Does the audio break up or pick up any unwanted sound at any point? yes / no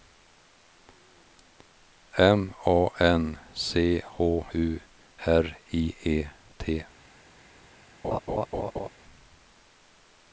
yes